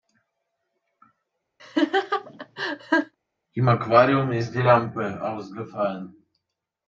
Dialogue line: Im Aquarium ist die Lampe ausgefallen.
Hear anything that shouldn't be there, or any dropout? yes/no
yes